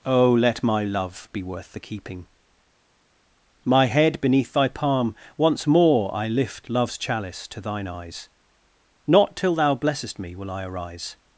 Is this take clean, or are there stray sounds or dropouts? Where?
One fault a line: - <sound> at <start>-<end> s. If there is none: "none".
none